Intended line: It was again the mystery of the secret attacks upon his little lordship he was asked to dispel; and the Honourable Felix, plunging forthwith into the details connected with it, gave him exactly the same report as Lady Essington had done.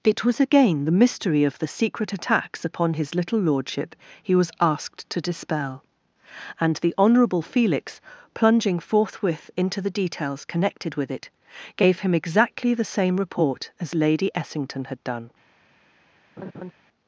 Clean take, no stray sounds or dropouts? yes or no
no